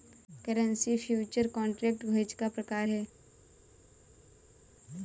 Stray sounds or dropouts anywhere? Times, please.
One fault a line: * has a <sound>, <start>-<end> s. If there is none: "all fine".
all fine